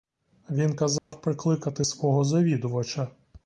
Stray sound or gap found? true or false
true